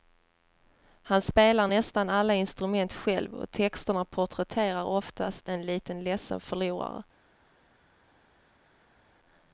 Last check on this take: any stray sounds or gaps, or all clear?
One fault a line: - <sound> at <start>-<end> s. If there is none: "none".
none